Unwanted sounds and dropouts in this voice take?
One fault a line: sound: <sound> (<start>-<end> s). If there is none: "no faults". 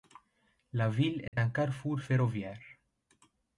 sound: dropout (1.3-1.3 s)